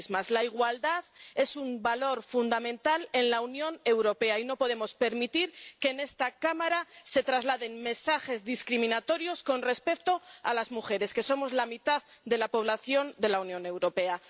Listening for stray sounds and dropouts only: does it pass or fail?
pass